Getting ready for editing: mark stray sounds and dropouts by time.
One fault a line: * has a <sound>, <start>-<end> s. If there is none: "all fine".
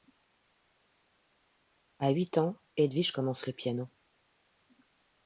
all fine